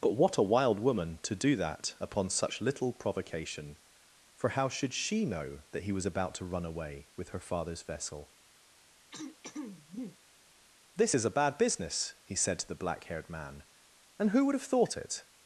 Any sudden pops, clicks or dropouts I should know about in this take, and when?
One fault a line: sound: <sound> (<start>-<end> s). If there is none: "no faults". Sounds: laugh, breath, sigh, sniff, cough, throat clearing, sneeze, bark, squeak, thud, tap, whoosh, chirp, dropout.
sound: throat clearing (9.1-10.2 s)